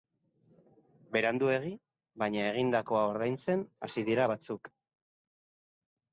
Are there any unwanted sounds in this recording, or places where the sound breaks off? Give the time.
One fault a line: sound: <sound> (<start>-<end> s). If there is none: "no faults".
no faults